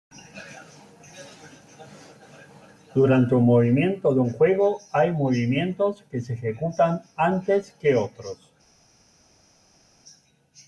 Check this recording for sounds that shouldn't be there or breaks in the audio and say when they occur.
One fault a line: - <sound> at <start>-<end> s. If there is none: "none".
none